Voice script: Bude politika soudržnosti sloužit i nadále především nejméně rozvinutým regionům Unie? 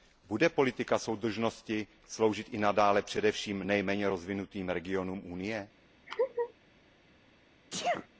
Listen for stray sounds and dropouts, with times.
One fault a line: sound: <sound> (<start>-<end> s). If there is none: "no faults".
sound: laugh (6.1-6.5 s)
sound: sneeze (7.7-8.1 s)